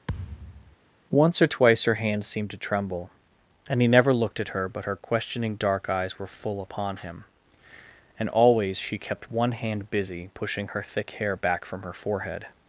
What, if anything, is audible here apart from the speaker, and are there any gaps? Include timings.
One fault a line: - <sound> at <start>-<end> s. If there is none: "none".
- thud at 0.1-0.8 s